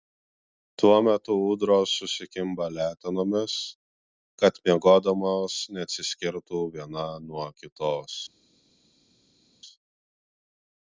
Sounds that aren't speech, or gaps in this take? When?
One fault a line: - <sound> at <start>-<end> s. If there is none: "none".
none